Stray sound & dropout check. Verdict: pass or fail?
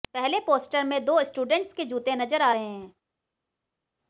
pass